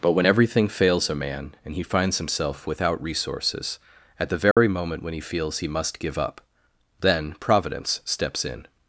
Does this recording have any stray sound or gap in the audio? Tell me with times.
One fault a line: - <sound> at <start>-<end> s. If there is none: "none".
- dropout at 4.5-4.6 s